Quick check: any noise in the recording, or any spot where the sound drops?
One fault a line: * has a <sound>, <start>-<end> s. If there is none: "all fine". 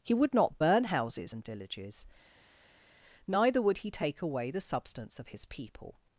all fine